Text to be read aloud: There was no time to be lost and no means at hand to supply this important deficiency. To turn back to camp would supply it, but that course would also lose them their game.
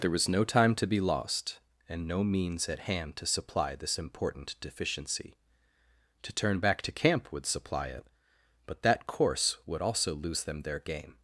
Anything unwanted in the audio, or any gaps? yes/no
no